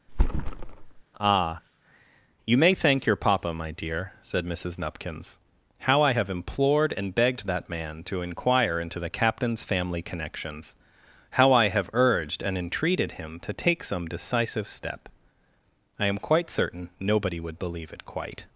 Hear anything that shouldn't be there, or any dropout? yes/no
yes